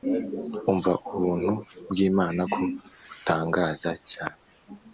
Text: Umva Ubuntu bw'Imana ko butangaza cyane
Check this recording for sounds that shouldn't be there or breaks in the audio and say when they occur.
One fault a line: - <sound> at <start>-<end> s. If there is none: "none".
none